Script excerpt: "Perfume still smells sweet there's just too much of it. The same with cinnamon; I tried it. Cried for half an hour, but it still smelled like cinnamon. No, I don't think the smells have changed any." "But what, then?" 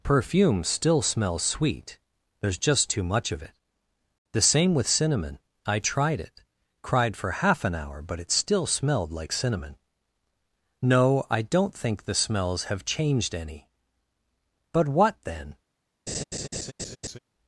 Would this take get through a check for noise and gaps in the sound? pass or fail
fail